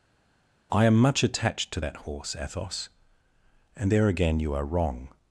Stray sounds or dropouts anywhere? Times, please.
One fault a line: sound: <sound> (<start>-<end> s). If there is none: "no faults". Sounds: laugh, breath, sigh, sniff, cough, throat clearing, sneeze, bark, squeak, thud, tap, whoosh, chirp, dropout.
no faults